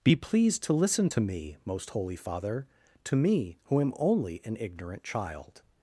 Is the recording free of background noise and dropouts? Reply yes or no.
yes